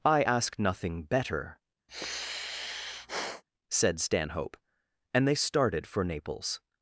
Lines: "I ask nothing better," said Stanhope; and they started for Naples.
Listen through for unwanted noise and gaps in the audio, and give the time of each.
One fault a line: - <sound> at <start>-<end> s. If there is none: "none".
- sigh at 1.9-3.4 s